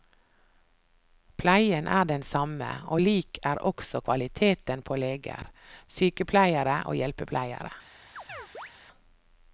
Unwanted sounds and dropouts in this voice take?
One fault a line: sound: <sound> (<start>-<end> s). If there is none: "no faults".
sound: chirp (8.2-8.7 s)